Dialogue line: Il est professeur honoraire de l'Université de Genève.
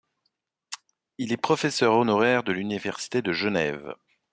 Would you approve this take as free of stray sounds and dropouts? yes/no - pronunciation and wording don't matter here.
yes